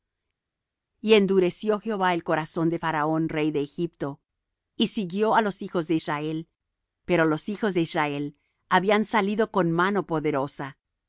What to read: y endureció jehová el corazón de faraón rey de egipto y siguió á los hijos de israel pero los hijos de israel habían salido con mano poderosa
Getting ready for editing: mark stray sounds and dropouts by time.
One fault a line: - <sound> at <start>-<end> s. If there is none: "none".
none